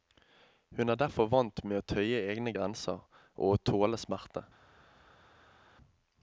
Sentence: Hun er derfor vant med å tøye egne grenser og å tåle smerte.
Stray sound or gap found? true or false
false